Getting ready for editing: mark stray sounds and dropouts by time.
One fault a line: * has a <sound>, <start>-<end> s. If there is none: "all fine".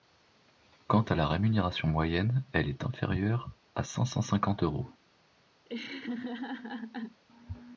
* has a laugh, 5.7-7.2 s